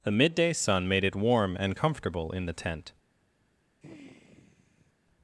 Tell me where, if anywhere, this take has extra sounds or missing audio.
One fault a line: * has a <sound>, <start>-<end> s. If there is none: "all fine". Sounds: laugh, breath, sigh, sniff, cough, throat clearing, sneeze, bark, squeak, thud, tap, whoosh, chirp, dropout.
* has a sigh, 3.8-4.9 s